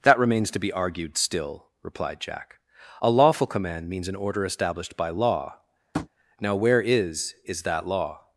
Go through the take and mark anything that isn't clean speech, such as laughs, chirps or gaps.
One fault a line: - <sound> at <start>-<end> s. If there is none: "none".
- tap at 5.9-6.1 s